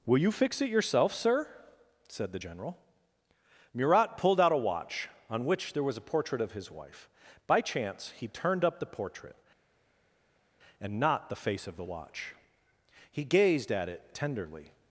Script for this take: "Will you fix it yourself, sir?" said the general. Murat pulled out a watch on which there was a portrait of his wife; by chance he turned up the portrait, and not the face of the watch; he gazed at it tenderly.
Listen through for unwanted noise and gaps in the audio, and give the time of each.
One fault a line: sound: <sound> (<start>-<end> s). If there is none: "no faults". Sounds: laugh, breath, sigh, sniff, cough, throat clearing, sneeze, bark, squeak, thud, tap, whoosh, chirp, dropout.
no faults